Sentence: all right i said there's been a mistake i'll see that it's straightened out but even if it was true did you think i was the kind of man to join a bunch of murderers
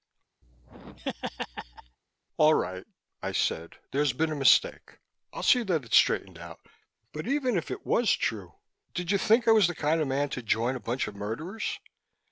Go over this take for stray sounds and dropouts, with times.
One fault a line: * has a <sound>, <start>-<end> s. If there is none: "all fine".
* has a laugh, 0.4-2.0 s